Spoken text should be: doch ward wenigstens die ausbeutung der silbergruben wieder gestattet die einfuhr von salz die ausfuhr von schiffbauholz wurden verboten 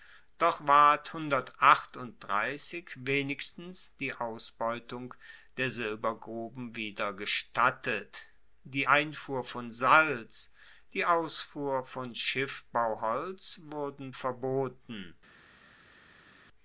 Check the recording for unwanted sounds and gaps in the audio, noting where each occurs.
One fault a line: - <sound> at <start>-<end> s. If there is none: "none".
none